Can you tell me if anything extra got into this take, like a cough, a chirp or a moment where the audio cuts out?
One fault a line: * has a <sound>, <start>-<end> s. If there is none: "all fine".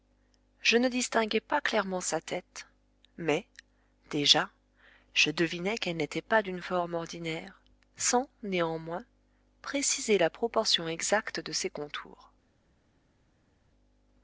all fine